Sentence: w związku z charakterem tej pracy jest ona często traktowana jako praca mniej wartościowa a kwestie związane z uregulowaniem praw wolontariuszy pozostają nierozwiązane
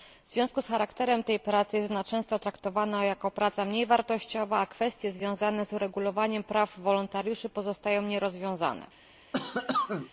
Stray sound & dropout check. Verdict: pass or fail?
fail